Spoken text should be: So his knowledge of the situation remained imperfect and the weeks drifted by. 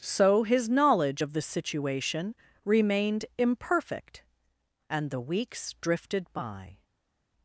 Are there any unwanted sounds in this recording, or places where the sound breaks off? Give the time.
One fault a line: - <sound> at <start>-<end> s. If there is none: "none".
none